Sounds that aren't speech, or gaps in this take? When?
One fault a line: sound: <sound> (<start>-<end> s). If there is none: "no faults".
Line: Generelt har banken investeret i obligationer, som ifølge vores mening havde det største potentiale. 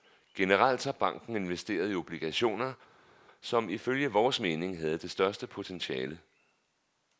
no faults